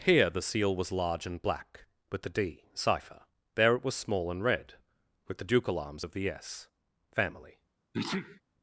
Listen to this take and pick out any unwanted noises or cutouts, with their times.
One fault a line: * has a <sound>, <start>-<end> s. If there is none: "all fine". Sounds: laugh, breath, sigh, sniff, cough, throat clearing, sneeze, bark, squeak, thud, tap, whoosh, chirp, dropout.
* has a sneeze, 7.9-8.4 s